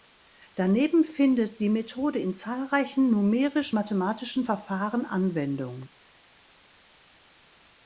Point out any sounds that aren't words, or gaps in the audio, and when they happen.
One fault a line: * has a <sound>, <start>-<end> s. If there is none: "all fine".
all fine